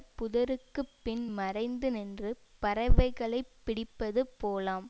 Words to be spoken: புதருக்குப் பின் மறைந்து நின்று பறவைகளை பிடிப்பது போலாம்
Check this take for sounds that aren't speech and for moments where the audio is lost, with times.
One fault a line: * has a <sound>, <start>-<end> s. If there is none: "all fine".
all fine